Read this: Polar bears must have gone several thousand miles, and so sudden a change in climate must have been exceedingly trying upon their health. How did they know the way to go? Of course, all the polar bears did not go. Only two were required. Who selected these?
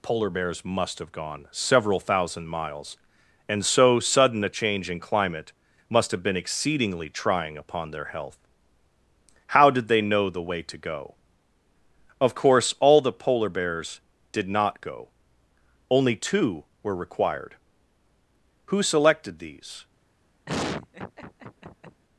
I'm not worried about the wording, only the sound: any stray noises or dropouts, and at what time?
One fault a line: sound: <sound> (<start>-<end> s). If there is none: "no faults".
sound: laugh (20.5-22.0 s)